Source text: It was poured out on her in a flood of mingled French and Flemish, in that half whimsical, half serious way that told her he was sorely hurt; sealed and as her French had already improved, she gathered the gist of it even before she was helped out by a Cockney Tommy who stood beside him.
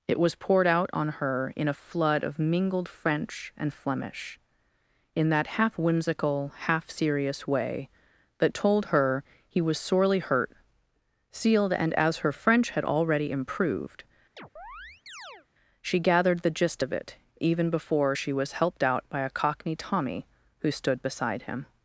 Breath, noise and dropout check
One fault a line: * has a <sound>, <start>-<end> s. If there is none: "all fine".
* has a chirp, 14.4-15.5 s